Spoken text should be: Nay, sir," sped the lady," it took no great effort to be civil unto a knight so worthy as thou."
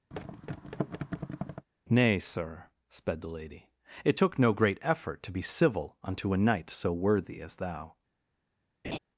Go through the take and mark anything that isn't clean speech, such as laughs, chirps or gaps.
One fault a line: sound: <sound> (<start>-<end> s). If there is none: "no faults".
sound: thud (0.1-1.7 s)
sound: laugh (8.8-9.0 s)